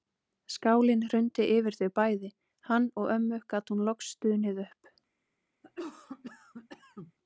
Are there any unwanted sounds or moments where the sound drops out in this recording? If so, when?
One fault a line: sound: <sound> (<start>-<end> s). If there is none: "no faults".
sound: cough (5.6-7.1 s)